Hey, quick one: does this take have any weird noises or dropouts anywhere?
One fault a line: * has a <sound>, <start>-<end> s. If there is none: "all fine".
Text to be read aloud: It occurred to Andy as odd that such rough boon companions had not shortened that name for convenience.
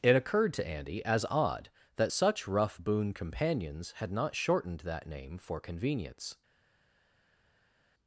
all fine